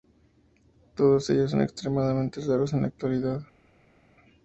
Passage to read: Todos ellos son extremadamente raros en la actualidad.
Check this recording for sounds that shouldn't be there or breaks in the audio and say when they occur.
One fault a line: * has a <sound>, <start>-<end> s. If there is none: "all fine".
all fine